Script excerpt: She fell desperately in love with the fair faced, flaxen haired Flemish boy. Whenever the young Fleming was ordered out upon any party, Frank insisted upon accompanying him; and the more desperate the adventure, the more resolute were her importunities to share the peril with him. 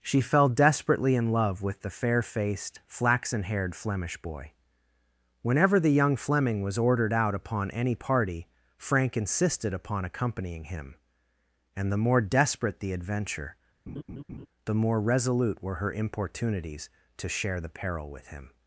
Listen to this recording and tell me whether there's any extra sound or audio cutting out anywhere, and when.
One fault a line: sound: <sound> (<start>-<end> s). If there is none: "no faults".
sound: laugh (13.9-14.5 s)